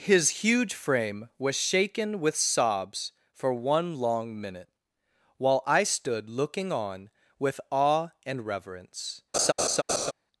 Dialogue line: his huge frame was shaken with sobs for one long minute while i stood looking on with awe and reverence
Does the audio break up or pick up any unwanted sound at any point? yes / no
yes